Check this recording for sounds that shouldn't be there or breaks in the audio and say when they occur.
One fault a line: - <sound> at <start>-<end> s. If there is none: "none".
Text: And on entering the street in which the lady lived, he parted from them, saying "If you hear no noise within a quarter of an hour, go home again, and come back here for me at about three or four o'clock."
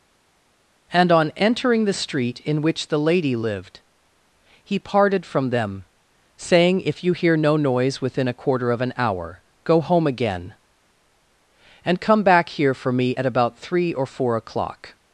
none